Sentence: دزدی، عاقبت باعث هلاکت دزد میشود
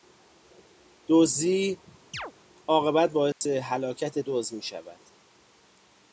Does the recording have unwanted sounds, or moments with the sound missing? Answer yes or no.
yes